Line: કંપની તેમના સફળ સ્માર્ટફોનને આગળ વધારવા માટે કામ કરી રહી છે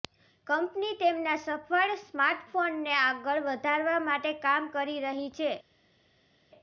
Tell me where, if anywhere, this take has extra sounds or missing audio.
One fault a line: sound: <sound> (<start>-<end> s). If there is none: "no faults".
no faults